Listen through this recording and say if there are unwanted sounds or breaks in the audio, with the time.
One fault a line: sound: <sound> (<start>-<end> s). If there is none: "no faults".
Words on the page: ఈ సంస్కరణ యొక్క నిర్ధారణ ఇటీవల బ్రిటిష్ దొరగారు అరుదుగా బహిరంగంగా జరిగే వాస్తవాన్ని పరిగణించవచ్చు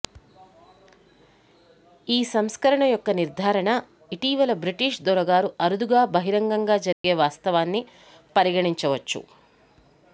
sound: dropout (6.9-7.0 s)